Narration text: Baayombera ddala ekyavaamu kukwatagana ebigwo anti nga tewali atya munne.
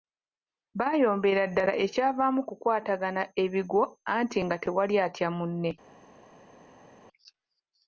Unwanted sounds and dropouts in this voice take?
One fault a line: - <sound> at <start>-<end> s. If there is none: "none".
none